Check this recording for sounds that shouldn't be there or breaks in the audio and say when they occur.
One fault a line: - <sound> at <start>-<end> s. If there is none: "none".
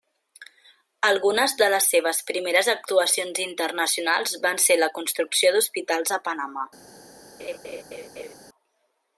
- laugh at 7.4-8.3 s